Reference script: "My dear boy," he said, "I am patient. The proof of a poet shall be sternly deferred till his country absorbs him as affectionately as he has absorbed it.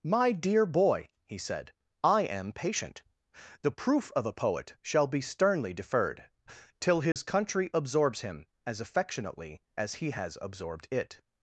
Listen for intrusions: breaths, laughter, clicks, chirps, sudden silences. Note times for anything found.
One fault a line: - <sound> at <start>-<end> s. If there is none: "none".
- dropout at 7.1-7.2 s